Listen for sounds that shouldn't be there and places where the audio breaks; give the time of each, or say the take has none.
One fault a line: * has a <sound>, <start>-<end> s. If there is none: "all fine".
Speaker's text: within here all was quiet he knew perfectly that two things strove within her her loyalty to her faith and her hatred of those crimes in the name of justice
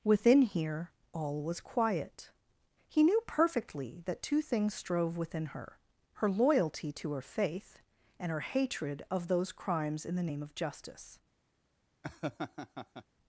* has a laugh, 12.0-13.0 s